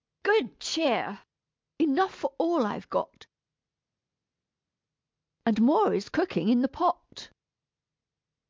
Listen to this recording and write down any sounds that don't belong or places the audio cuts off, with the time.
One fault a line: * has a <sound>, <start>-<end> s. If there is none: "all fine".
all fine